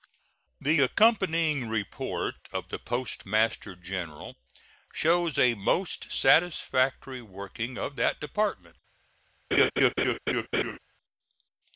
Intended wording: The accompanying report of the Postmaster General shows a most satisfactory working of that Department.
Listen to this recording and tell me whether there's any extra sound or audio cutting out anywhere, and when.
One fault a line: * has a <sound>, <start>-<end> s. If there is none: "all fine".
* has a laugh, 9.5-10.8 s